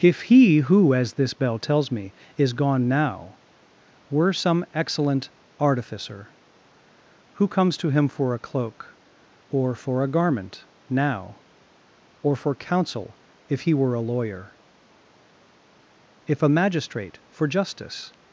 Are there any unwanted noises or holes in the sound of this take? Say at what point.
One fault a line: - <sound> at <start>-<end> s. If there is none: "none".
none